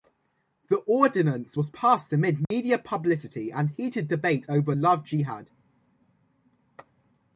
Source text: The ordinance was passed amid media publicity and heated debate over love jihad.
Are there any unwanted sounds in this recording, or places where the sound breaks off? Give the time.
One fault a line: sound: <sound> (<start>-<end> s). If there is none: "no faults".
sound: dropout (2.4-2.5 s)